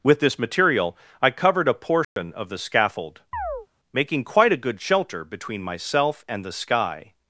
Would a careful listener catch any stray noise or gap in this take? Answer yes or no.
yes